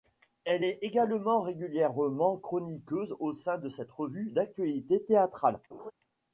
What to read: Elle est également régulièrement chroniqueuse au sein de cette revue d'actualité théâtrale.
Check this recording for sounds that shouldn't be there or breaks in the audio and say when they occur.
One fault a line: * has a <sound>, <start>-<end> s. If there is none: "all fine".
* has a laugh, 5.7-5.9 s